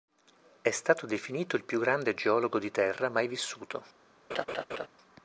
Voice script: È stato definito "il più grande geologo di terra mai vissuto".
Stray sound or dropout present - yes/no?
yes